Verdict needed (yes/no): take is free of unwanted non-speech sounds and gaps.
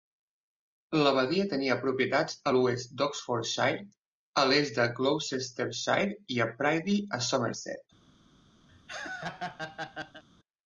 no